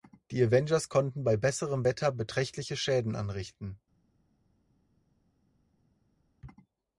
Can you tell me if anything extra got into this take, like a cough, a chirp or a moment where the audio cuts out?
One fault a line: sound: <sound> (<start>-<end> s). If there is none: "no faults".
no faults